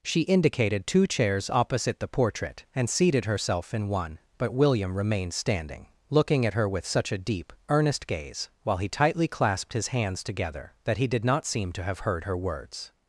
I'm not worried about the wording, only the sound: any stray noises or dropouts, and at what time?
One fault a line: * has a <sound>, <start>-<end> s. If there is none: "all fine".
all fine